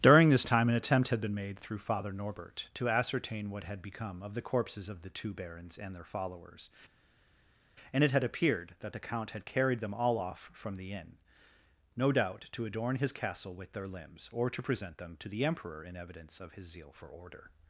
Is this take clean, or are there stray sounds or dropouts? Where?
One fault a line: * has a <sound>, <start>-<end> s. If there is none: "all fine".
all fine